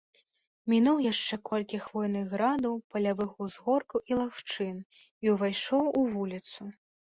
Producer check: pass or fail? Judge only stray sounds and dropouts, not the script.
pass